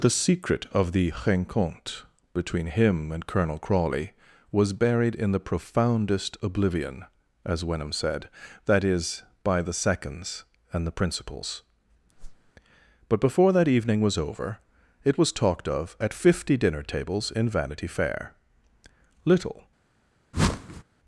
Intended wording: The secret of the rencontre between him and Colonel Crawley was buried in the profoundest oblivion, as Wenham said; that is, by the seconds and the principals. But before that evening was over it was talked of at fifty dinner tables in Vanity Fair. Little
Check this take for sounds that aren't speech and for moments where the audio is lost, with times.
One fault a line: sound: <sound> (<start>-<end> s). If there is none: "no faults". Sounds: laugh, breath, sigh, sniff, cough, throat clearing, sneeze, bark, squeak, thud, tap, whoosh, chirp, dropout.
sound: whoosh (12.2-12.5 s)
sound: whoosh (20.3-20.8 s)